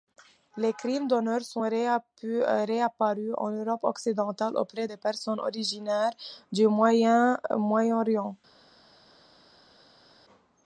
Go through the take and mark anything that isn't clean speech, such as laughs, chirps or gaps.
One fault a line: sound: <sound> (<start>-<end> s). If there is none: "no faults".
no faults